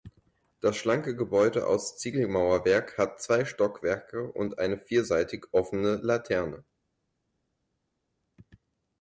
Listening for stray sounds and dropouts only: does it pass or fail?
pass